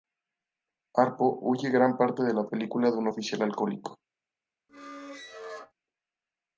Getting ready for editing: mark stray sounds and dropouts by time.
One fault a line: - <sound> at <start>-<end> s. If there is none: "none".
- squeak at 4.7-5.7 s